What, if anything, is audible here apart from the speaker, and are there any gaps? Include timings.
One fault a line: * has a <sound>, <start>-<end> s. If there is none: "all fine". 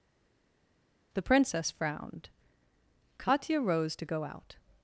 all fine